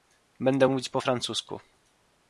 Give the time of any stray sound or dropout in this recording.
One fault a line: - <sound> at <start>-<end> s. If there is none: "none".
none